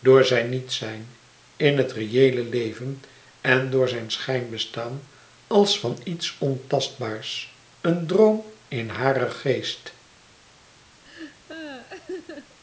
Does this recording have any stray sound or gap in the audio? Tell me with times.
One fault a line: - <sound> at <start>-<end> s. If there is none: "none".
- laugh at 11.0-12.6 s